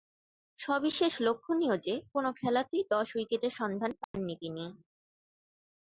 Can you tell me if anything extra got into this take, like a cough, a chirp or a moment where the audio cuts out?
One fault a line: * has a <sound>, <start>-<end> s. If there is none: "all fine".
* has a dropout, 4.0-4.1 s